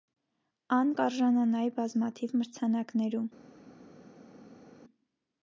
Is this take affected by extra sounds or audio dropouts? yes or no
no